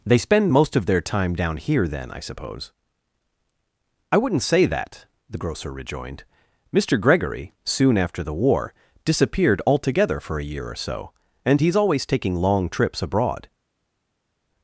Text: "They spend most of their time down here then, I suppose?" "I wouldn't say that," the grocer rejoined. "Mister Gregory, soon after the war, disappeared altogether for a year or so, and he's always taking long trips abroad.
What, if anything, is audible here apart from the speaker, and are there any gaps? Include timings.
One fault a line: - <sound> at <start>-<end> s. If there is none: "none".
none